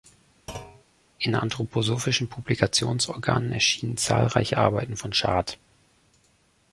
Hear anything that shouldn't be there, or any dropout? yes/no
yes